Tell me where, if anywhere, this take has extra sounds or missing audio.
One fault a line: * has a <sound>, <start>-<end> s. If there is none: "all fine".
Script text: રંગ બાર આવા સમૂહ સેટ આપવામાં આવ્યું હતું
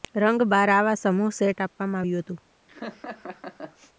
* has a laugh, 2.7-3.9 s